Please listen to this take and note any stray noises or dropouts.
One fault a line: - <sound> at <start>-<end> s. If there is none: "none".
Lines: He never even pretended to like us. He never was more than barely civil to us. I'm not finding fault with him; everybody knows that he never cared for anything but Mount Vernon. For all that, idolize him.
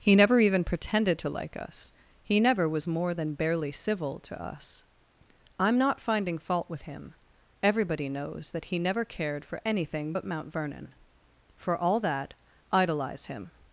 none